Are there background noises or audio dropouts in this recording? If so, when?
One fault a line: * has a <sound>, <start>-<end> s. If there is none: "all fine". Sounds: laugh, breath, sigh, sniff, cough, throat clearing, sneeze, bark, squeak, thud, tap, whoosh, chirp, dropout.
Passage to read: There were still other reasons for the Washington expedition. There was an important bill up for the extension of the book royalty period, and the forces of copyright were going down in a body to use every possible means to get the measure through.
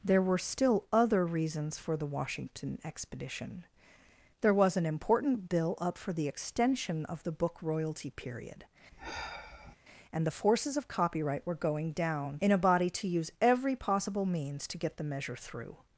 * has a sigh, 8.9-9.8 s